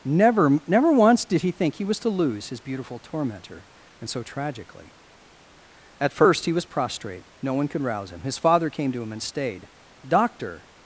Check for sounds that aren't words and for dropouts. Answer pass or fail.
pass